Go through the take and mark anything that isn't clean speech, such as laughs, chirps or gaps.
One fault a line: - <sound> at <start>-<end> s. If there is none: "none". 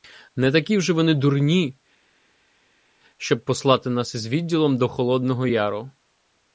none